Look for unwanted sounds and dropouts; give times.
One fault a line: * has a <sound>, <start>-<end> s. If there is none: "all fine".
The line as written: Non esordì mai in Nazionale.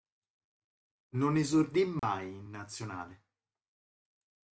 * has a dropout, 2.0-2.0 s